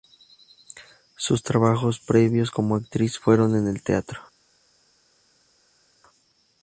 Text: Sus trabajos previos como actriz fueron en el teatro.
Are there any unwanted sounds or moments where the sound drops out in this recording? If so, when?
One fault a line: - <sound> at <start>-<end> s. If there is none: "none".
none